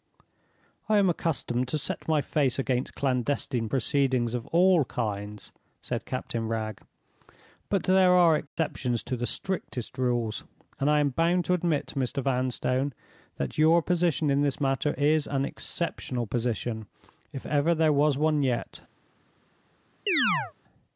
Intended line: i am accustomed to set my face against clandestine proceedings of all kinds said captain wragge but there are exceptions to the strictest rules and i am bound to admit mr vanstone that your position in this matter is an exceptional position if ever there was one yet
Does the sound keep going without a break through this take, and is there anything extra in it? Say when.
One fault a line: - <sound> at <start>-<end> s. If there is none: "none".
- dropout at 8.5-8.6 s
- chirp at 20.1-20.5 s